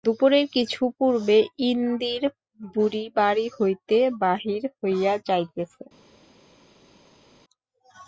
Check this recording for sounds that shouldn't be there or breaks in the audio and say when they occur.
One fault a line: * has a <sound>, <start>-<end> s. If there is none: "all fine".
all fine